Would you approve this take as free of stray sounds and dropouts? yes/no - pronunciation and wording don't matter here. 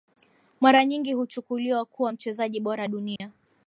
no